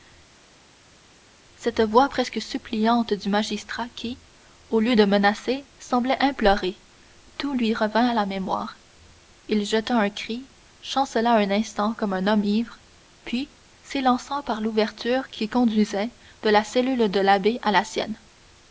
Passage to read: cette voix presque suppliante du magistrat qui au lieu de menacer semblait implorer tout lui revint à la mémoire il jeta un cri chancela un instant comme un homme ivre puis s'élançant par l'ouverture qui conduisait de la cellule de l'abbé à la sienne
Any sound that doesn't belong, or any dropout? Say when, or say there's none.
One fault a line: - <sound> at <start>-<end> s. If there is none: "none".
none